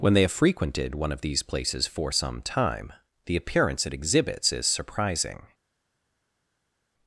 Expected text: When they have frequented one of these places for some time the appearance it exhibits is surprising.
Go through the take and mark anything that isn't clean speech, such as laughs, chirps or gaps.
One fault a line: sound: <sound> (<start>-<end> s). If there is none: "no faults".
no faults